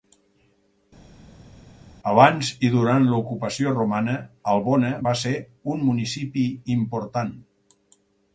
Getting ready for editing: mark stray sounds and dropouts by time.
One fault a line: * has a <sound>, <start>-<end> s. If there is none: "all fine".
all fine